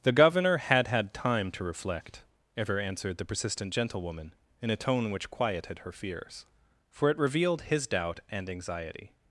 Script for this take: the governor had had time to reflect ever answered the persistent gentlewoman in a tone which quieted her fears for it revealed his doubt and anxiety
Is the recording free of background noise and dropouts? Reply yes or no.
yes